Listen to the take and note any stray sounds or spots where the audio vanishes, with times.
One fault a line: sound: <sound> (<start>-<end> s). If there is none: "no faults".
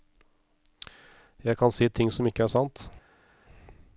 no faults